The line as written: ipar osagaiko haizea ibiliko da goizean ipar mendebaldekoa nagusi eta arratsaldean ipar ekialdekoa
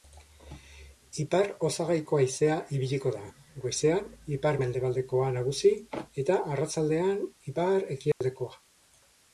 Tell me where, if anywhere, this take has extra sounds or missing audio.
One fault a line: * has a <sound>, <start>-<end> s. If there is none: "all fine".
* has a dropout, 8.1-8.2 s